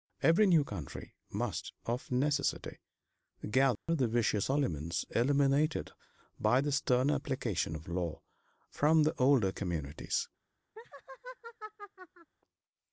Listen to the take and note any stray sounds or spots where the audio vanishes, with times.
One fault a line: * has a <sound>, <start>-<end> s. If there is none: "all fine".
* has a dropout, 3.8-3.9 s
* has a laugh, 10.8-12.3 s